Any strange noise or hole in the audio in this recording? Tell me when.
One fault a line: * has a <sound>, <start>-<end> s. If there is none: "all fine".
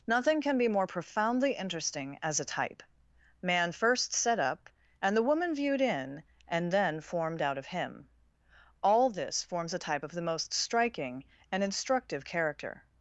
all fine